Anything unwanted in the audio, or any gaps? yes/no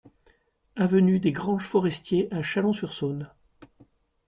no